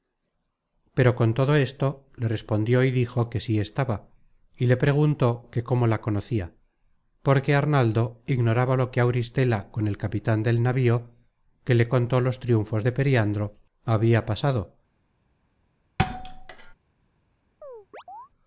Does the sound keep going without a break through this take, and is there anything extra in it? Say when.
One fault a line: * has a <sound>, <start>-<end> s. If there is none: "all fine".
* has a thud, 16.0-16.7 s
* has a chirp, 17.6-18.3 s